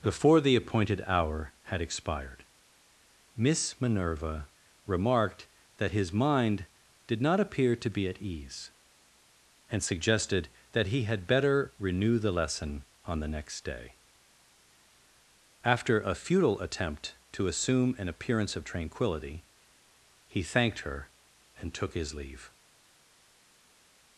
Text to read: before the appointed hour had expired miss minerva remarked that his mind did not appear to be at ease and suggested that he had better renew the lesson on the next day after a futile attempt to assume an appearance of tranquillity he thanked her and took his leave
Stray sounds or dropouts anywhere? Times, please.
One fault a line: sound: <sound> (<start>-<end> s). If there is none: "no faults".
no faults